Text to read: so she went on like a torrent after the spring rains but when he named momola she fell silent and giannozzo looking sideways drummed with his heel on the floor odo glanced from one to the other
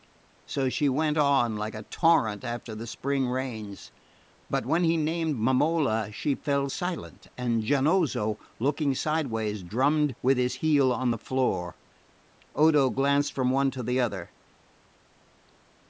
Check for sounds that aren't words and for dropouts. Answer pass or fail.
pass